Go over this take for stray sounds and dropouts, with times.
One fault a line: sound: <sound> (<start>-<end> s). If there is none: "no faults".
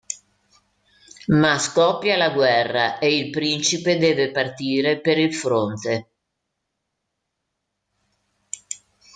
no faults